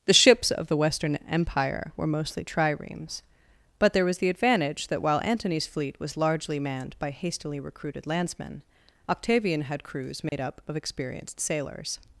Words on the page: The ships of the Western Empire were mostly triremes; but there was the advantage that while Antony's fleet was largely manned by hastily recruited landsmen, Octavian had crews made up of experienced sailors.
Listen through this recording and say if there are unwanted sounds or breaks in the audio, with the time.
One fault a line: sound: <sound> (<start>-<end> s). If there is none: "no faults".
sound: dropout (10.3-10.3 s)